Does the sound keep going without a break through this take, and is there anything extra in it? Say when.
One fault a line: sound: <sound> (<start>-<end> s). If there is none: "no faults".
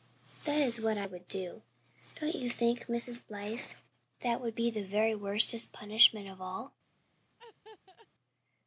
sound: laugh (7.4-8.1 s)